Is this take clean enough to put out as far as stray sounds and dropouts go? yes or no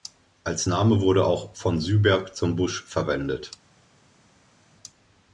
yes